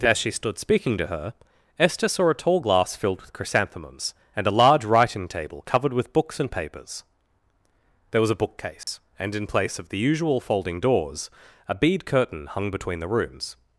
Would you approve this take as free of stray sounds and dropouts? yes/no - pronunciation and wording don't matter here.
no